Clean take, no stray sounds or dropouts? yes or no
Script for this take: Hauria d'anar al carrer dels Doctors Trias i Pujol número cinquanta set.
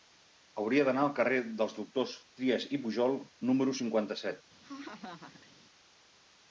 no